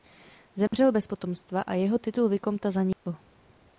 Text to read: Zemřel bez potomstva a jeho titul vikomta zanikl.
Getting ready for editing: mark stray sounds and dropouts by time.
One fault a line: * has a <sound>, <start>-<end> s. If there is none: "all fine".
* has a dropout, 0.7-0.7 s
* has a dropout, 2.9-3.1 s